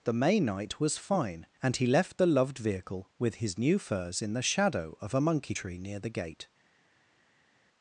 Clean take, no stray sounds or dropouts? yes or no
yes